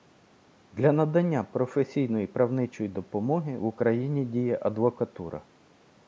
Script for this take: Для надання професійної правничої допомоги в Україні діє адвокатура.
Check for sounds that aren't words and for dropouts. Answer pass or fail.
pass